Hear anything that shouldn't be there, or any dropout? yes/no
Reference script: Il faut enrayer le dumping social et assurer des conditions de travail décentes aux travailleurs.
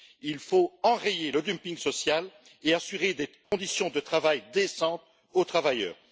yes